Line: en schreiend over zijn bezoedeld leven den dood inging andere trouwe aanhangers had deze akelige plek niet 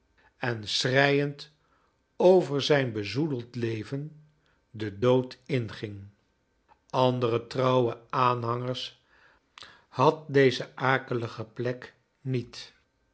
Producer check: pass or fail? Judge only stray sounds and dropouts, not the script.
pass